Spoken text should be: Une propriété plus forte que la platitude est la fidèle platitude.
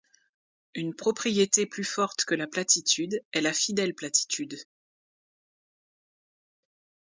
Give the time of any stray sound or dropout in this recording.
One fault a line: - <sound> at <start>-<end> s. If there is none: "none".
none